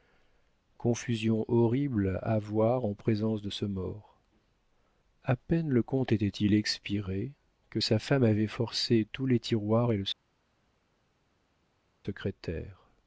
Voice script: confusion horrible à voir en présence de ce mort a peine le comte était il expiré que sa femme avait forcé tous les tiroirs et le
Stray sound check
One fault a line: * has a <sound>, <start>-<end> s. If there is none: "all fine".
all fine